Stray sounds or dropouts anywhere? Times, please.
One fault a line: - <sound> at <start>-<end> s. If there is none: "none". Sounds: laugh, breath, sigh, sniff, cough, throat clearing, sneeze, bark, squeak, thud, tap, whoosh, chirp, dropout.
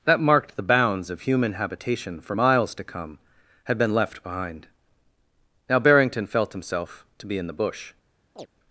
- chirp at 8.4-8.5 s